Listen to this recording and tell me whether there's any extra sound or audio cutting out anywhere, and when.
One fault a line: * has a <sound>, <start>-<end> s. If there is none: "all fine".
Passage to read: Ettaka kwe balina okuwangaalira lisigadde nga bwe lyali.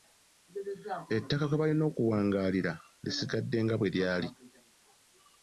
all fine